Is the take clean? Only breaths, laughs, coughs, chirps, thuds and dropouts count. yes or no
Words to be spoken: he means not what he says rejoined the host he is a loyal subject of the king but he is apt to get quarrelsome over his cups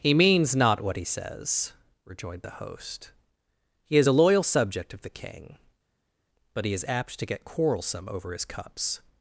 yes